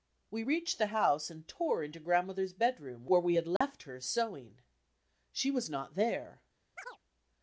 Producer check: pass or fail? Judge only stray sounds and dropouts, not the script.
fail